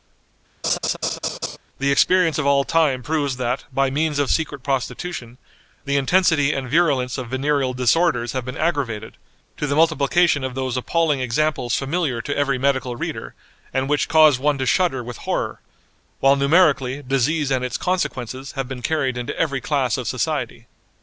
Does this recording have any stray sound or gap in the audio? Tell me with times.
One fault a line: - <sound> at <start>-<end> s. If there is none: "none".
- laugh at 0.6-1.6 s